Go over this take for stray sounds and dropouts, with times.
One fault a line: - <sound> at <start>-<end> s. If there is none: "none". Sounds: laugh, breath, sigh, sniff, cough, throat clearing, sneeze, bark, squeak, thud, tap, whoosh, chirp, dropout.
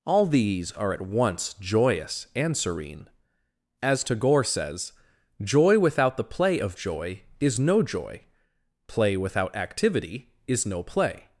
none